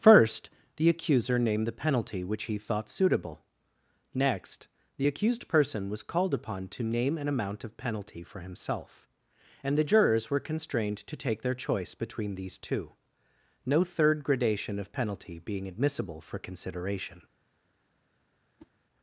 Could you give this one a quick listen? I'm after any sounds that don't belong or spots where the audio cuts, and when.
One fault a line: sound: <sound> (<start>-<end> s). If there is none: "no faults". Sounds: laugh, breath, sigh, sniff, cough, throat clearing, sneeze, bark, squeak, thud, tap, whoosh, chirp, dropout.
sound: whoosh (18.6-18.7 s)